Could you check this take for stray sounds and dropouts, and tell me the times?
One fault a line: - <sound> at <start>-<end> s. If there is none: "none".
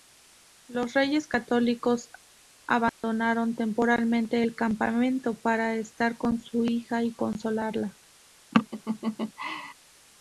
- dropout at 2.9-3.0 s
- laugh at 8.5-9.7 s